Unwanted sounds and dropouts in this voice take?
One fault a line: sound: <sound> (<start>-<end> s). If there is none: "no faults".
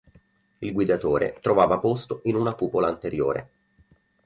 no faults